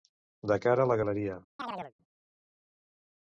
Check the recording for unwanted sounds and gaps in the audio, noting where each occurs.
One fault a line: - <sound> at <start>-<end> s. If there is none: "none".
- chirp at 1.6-1.9 s